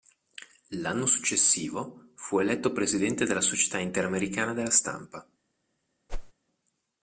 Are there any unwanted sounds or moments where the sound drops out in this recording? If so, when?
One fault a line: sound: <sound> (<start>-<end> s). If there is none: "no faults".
sound: whoosh (6.1-6.3 s)